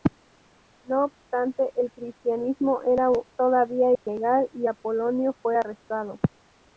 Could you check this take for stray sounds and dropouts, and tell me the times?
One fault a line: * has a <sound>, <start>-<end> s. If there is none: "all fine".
* has a dropout, 4.0-4.1 s